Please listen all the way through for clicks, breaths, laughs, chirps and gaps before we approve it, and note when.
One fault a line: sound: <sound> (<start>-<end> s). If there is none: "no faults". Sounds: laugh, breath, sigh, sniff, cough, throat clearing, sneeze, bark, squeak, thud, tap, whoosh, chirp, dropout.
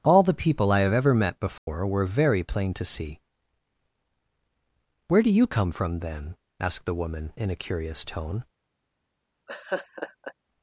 sound: dropout (1.6-1.7 s)
sound: laugh (9.5-10.3 s)